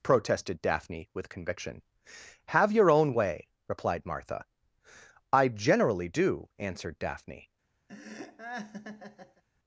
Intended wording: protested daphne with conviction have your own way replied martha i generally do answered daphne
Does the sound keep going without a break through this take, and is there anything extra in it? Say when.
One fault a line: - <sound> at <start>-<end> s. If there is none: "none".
- laugh at 7.9-9.4 s